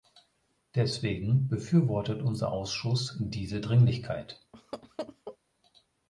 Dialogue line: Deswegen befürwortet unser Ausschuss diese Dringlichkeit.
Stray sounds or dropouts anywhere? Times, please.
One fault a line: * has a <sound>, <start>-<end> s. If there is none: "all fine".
* has a laugh, 4.5-5.4 s